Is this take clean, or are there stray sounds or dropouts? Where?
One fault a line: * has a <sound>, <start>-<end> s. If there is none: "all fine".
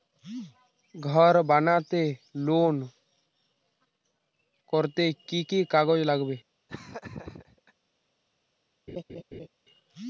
* has a laugh, 6.7-7.7 s
* has a laugh, 8.9-9.5 s